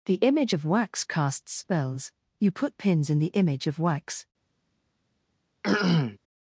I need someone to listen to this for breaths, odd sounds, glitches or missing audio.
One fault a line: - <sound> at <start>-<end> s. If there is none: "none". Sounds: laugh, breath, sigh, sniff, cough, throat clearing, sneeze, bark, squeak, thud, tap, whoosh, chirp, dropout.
- throat clearing at 5.6-6.2 s